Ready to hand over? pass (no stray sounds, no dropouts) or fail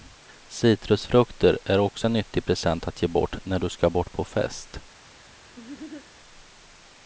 fail